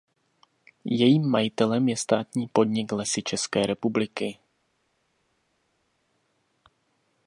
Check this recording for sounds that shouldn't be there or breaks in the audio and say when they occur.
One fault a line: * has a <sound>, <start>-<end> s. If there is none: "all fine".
all fine